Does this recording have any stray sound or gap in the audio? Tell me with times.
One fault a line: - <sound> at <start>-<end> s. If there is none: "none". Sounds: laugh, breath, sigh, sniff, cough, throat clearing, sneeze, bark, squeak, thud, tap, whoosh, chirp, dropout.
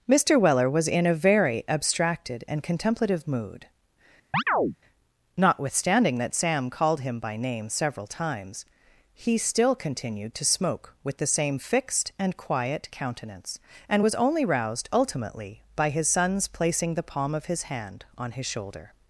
- chirp at 4.3-4.8 s